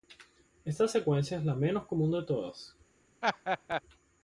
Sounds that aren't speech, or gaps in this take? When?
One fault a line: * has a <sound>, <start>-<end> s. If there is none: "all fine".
* has a laugh, 3.2-3.8 s